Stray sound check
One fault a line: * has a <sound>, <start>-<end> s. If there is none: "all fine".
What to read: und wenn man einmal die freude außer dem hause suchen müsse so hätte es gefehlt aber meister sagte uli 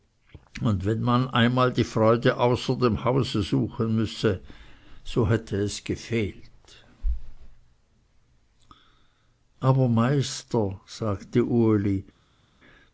all fine